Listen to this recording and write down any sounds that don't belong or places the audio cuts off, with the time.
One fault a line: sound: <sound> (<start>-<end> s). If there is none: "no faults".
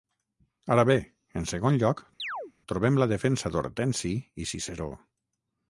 sound: chirp (2.2-2.5 s)